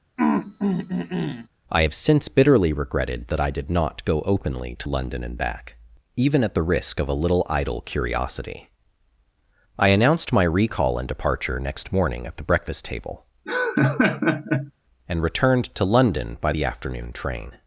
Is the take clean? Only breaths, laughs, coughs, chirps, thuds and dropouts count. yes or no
no